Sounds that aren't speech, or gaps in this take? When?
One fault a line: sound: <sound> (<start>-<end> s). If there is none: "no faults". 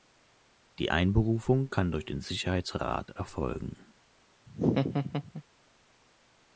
sound: laugh (4.5-5.4 s)